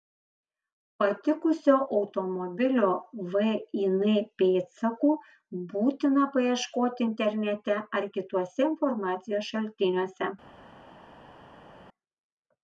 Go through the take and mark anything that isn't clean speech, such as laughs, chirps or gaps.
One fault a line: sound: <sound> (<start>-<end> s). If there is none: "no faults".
no faults